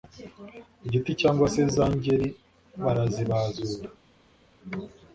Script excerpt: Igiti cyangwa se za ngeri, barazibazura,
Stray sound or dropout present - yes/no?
no